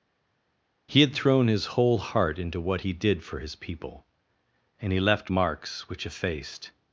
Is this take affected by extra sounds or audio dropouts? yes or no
no